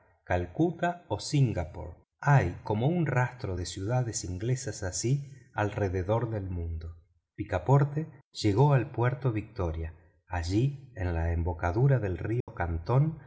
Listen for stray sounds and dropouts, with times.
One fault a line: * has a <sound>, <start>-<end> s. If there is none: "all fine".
* has a dropout, 12.4-12.5 s